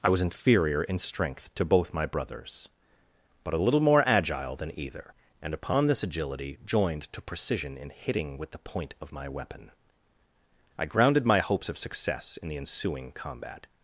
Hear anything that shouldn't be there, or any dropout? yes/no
no